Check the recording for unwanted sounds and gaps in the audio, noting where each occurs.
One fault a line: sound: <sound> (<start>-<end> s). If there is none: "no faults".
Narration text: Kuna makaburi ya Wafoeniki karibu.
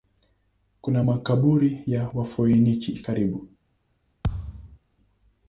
sound: thud (4.2-4.8 s)